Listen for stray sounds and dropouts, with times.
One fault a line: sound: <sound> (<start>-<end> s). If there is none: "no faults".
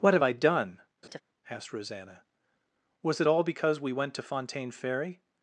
sound: laugh (1.0-1.2 s)